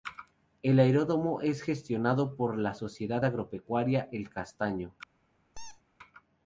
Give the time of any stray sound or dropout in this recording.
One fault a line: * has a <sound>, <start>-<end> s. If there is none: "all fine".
* has a squeak, 5.5-5.8 s